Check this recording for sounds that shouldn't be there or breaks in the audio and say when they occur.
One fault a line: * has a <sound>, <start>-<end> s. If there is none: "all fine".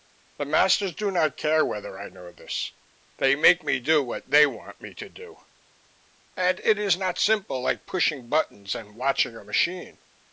all fine